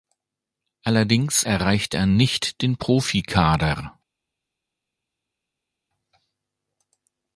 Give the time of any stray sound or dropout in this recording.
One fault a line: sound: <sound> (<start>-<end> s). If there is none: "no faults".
no faults